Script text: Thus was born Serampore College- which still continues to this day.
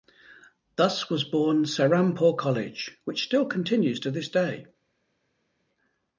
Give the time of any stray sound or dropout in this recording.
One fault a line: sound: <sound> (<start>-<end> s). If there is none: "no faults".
no faults